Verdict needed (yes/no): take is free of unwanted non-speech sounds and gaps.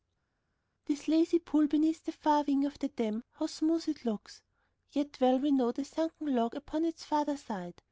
yes